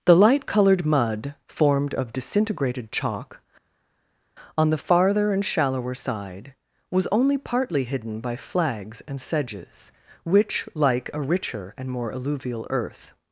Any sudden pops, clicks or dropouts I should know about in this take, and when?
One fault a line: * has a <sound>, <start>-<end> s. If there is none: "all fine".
all fine